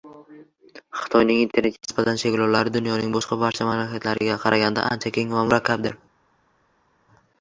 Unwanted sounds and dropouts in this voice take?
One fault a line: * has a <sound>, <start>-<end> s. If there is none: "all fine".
all fine